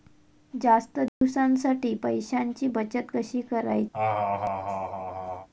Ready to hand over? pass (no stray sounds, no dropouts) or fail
fail